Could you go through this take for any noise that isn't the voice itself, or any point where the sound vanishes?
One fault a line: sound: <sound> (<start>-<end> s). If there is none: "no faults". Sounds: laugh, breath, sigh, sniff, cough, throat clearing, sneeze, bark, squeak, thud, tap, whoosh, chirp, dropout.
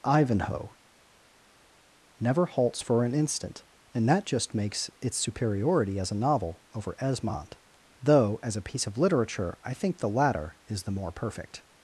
no faults